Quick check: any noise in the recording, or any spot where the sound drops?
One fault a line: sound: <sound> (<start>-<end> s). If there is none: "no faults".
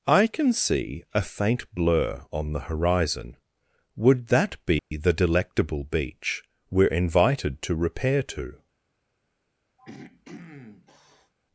sound: dropout (4.8-4.9 s)
sound: throat clearing (9.8-11.3 s)